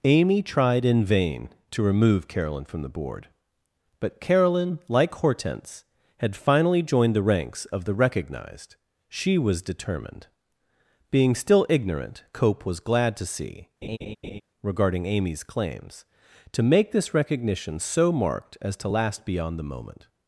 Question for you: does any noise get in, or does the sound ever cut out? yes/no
yes